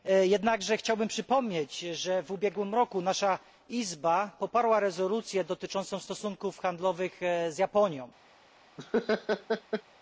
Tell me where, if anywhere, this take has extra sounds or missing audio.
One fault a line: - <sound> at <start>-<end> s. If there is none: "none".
- laugh at 8.8-9.8 s